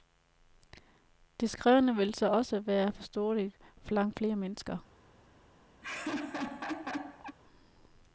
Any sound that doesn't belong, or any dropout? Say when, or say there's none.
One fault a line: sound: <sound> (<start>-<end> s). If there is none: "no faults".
sound: laugh (5.8-7.4 s)